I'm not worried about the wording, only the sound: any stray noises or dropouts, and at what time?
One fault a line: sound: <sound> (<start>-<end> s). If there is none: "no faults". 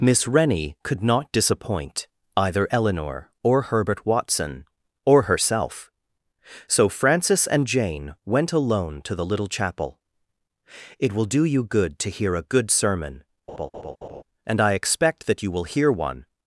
sound: laugh (13.5-14.2 s)